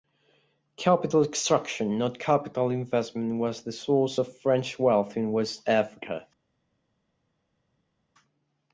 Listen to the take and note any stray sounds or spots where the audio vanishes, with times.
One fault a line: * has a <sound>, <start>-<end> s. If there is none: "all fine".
all fine